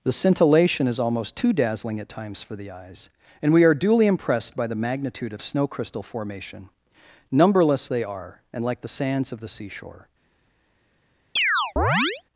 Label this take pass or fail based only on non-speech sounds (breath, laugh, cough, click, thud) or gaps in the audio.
fail